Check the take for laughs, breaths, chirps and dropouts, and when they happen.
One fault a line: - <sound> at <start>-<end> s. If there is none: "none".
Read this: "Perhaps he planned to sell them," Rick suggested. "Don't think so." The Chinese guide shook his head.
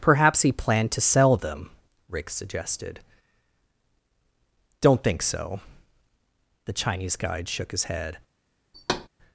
- thud at 8.7-9.1 s